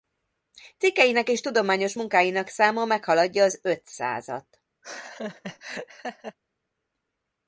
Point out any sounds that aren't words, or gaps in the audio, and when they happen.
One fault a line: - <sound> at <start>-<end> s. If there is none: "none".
- laugh at 4.8-6.4 s